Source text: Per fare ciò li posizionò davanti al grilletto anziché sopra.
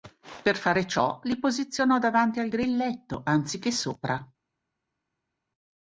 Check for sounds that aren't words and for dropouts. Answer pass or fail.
pass